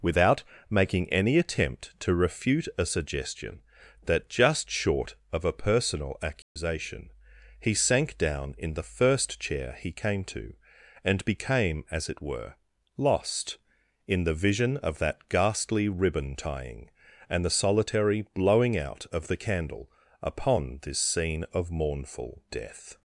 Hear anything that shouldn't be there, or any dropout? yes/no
yes